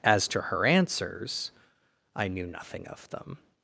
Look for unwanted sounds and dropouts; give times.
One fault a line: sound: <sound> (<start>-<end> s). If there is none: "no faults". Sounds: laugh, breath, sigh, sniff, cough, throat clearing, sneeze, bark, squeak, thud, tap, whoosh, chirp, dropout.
no faults